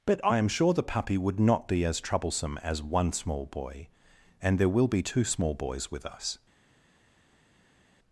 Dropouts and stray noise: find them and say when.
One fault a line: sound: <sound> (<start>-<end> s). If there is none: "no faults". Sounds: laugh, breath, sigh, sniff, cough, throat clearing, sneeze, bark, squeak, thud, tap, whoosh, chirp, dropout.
no faults